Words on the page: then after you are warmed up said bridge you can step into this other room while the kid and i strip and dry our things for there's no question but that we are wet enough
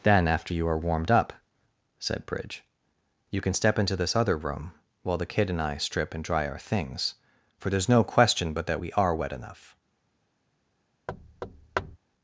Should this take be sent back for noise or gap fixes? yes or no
yes